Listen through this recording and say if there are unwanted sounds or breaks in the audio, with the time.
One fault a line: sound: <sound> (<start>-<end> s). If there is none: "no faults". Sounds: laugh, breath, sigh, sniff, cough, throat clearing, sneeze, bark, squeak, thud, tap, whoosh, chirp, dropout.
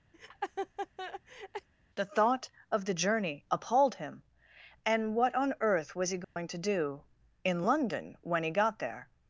sound: laugh (0.1-1.7 s)
sound: dropout (6.2-6.4 s)